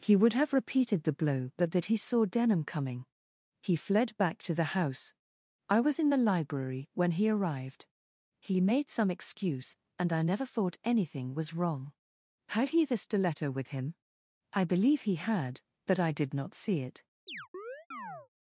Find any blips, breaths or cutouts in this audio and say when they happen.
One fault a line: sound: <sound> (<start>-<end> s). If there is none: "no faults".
sound: chirp (17.3-18.3 s)